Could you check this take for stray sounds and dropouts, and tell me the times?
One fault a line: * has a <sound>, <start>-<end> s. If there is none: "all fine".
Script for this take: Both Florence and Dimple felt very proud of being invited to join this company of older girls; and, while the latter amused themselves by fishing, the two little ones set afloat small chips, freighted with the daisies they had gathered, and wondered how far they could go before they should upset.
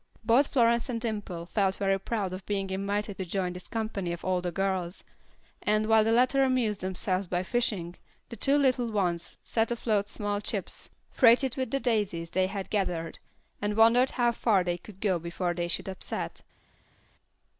all fine